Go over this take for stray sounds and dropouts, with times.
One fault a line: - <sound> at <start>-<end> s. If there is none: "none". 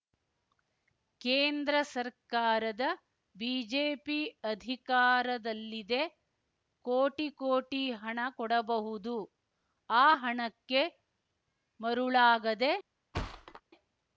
- thud at 13.1-13.6 s